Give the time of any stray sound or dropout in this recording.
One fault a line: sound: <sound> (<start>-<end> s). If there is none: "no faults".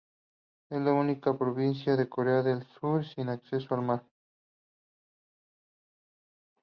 no faults